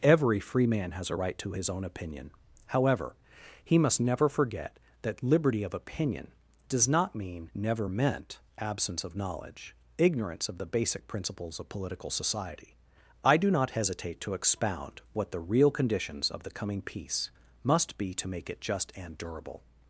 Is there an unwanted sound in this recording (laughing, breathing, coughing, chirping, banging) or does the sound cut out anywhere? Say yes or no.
no